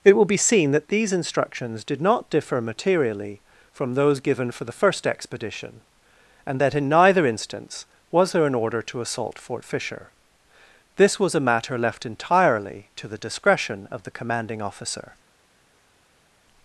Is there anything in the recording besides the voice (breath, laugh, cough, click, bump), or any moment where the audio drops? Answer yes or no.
no